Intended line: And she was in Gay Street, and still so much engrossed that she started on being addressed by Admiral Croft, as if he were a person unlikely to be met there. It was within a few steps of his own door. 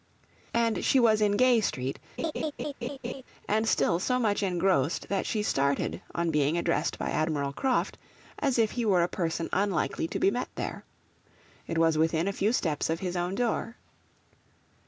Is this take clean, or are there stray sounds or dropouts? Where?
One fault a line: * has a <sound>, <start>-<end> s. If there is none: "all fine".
* has a laugh, 2.2-3.2 s